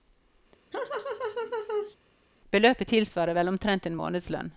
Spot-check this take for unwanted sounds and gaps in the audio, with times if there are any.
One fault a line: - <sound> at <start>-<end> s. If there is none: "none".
- laugh at 0.7-2.0 s